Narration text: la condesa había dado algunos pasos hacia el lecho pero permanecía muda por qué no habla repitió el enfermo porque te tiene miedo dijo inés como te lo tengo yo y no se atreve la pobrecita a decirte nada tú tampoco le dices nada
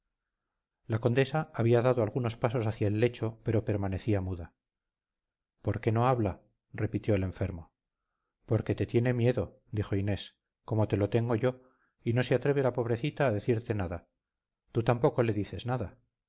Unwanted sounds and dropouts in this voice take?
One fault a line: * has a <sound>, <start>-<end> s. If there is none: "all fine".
all fine